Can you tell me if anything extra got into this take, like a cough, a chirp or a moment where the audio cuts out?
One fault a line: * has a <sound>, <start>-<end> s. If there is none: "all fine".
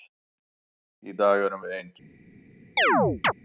* has a chirp, 2.8-3.3 s